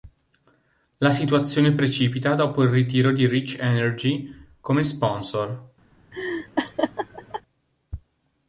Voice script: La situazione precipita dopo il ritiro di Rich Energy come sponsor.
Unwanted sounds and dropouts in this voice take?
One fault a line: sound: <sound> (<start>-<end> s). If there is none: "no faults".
sound: laugh (6.1-7.4 s)